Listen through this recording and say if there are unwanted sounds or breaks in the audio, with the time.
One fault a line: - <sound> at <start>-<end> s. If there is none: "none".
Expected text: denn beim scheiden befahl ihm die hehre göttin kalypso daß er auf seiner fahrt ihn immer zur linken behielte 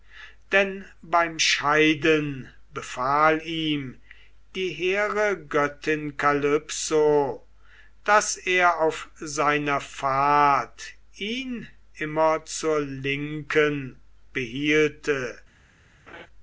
- laugh at 16.1-16.3 s